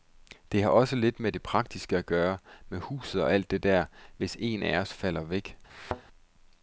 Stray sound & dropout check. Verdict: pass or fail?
fail